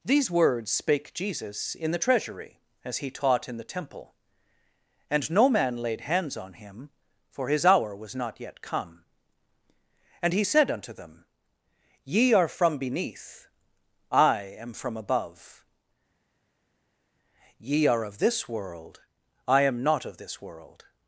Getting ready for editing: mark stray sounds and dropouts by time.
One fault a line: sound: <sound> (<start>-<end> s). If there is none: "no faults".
no faults